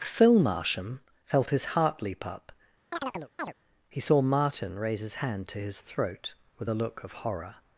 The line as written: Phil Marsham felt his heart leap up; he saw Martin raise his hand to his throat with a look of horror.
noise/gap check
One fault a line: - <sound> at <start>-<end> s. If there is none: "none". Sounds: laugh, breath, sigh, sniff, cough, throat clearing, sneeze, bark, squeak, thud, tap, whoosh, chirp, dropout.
- chirp at 2.9-3.5 s